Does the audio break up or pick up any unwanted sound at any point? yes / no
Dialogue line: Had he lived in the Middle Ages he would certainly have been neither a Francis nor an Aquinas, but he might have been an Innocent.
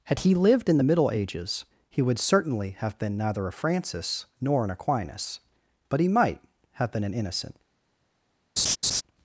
yes